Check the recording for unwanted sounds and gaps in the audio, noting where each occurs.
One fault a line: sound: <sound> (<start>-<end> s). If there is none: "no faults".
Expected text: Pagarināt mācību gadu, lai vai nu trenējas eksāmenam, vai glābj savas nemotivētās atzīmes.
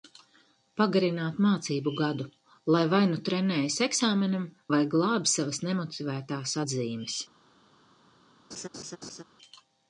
sound: laugh (8.5-9.2 s)